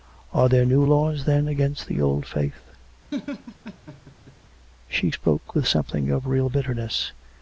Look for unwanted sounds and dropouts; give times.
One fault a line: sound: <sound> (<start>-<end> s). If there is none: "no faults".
sound: laugh (3.1-4.3 s)